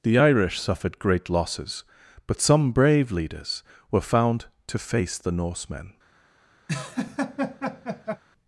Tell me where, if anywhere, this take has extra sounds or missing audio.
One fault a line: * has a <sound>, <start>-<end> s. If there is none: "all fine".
* has a laugh, 6.7-8.2 s